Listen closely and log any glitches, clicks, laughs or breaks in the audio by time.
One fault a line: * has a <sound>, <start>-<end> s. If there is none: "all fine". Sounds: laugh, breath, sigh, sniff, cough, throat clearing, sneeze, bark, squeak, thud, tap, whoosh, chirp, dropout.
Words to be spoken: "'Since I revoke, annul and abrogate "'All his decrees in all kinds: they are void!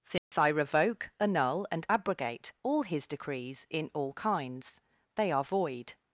* has a dropout, 0.2-0.3 s